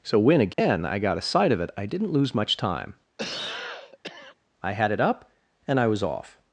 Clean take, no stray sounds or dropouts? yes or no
no